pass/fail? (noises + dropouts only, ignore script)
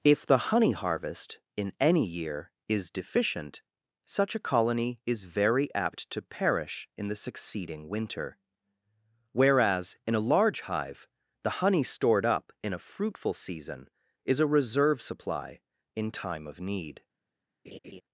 fail